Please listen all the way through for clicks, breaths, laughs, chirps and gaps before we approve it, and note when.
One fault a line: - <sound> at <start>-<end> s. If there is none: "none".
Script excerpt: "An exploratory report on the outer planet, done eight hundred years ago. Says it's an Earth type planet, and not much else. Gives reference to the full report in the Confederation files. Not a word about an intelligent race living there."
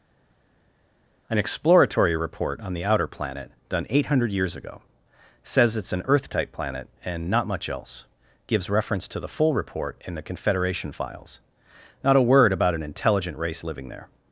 none